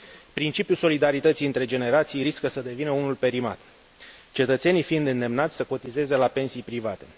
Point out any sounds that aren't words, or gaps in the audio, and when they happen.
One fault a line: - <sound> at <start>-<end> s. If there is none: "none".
none